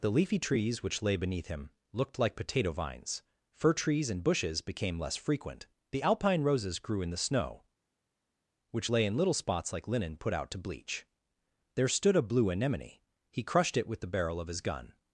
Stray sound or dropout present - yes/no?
no